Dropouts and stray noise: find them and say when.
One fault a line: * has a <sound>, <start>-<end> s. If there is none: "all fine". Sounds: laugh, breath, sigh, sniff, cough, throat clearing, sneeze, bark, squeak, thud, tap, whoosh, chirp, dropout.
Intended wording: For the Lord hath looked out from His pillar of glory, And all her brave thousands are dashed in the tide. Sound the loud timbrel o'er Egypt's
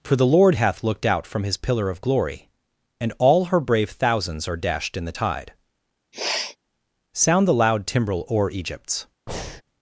* has a sniff, 6.1-6.6 s
* has a breath, 9.3-9.6 s